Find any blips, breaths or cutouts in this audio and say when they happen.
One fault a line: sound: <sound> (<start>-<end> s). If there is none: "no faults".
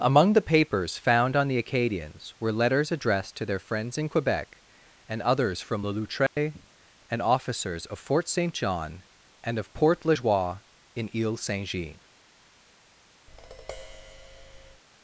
sound: dropout (6.3-6.4 s)
sound: tap (13.3-14.8 s)